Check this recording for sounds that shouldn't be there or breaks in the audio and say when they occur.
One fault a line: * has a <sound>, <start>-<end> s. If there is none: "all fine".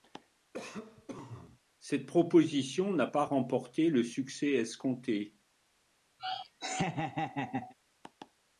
* has a cough, 0.5-1.6 s
* has a laugh, 6.2-7.7 s